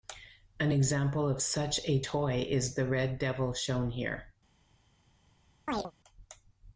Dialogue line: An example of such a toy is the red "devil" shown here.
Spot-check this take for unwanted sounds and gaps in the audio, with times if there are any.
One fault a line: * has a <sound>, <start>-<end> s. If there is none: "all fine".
* has a chirp, 5.7-5.9 s